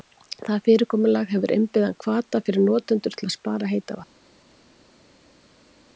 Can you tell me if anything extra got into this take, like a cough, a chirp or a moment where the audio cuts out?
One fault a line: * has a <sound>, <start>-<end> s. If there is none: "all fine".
all fine